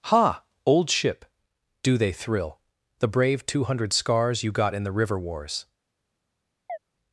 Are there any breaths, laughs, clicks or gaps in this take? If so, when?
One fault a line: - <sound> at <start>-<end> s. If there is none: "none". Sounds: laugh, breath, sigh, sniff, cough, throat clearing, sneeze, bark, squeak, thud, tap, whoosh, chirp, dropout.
- chirp at 6.7-6.8 s